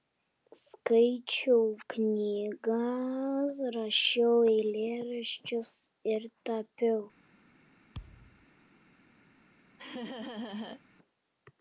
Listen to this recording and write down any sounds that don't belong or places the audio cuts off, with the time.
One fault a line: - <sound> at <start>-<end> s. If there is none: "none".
- thud at 7.9-8.5 s
- laugh at 9.8-10.8 s